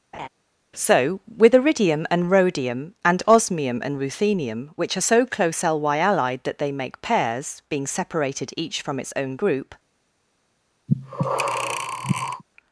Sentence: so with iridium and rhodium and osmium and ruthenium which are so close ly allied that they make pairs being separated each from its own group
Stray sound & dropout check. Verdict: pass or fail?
fail